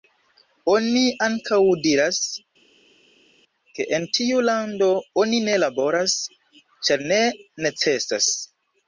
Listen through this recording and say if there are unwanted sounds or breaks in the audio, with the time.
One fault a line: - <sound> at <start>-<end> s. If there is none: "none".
none